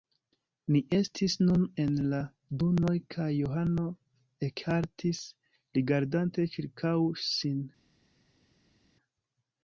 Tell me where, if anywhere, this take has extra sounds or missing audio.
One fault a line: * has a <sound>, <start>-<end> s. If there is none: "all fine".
all fine